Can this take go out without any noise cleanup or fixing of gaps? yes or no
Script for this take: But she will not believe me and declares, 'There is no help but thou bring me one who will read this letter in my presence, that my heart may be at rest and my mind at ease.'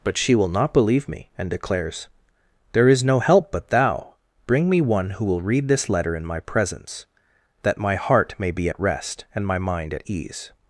yes